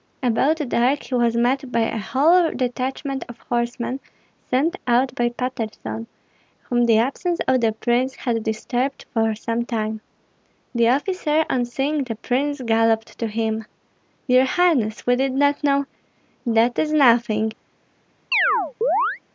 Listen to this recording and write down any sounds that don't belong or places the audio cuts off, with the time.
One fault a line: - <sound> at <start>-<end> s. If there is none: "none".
- chirp at 18.3-19.2 s